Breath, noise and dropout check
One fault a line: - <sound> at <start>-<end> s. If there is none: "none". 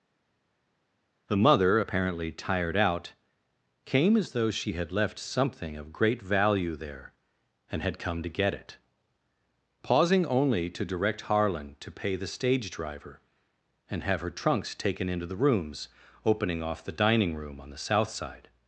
none